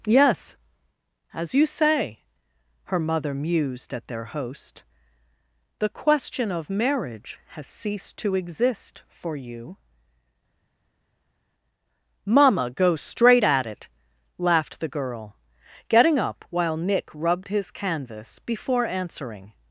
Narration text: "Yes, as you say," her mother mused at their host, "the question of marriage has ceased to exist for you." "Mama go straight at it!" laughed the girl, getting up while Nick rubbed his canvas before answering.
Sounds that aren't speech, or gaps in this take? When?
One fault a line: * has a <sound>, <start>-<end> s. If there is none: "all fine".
all fine